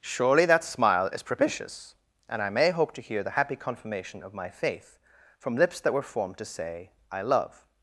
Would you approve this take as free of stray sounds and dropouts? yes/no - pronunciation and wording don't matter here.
yes